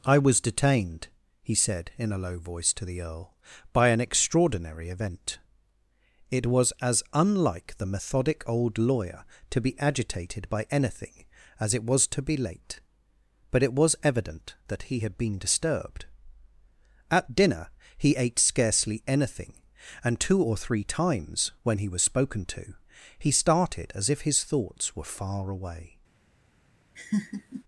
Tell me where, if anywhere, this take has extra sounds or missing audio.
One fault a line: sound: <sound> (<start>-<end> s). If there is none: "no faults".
sound: laugh (27.0-27.6 s)